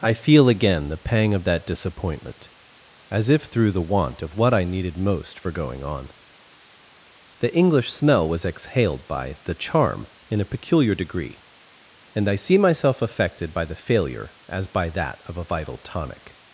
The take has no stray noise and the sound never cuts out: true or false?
true